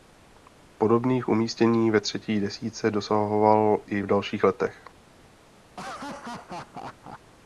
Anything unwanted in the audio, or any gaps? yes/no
yes